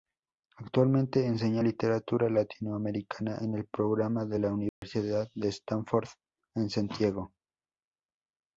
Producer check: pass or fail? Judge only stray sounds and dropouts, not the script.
fail